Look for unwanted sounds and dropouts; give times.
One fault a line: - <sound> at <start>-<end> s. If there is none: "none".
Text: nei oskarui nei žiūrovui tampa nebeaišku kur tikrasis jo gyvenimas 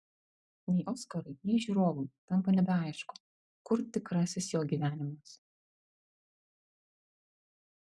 none